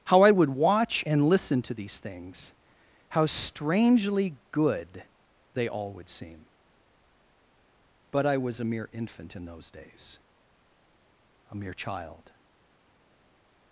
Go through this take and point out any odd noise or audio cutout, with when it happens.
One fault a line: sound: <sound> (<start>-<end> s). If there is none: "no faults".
no faults